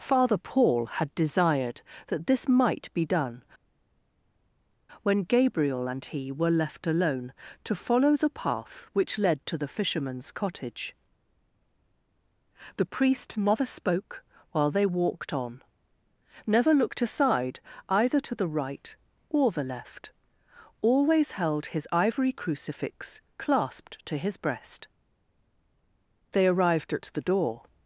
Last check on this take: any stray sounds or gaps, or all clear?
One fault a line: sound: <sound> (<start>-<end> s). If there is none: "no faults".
no faults